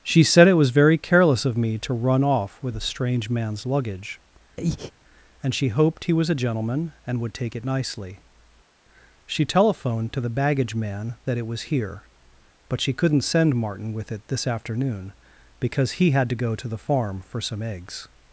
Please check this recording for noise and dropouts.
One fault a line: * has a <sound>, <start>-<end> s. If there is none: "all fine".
* has a breath, 4.6-4.9 s